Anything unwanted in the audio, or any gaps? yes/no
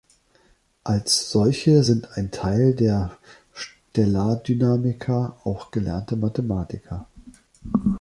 no